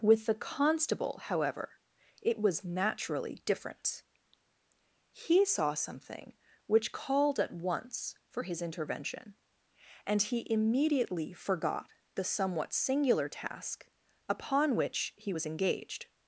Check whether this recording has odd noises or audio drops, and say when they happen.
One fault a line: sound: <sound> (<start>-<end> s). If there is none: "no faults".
no faults